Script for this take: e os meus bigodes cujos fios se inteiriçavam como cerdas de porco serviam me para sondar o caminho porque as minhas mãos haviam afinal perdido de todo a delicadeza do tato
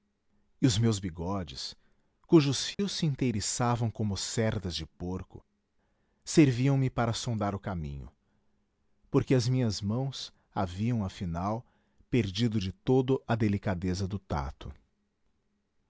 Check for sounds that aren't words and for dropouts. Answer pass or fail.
fail